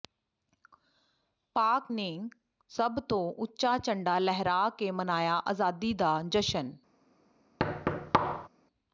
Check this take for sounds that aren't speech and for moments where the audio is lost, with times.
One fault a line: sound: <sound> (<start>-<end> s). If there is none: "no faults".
sound: thud (7.6-8.5 s)